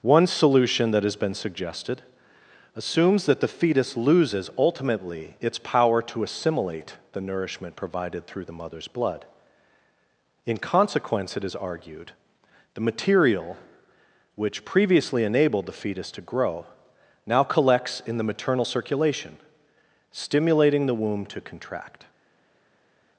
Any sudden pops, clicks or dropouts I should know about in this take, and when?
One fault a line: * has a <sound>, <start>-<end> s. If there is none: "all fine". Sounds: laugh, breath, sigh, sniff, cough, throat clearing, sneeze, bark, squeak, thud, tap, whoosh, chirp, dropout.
all fine